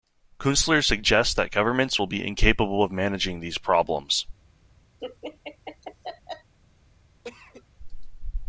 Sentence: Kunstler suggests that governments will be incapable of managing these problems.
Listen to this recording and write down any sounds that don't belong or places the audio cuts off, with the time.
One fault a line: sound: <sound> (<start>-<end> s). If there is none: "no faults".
sound: laugh (5.0-6.5 s)
sound: cough (7.2-7.6 s)